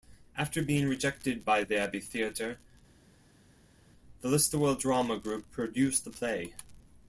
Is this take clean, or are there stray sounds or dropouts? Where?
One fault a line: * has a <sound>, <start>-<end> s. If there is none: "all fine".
all fine